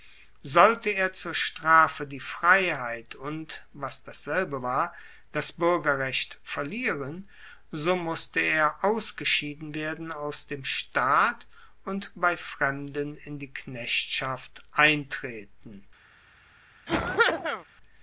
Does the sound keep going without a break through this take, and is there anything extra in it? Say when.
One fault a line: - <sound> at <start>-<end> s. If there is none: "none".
- cough at 16.9-17.7 s